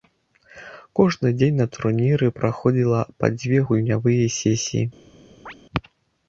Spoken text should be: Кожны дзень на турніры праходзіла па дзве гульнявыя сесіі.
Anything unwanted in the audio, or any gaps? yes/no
yes